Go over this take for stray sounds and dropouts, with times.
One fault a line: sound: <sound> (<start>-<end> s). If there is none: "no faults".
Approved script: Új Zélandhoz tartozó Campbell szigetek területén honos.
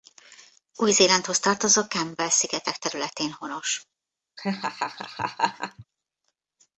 sound: laugh (4.4-5.8 s)